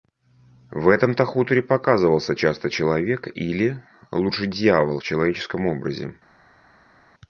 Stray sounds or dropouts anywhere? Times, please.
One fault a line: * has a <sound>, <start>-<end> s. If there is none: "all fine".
all fine